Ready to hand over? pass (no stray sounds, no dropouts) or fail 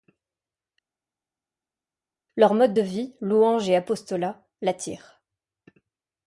pass